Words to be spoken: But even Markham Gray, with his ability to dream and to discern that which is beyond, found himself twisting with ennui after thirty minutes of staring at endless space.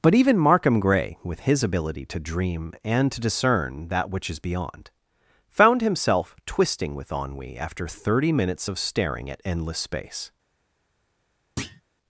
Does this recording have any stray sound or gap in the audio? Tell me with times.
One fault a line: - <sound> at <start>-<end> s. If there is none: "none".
- thud at 11.6-11.8 s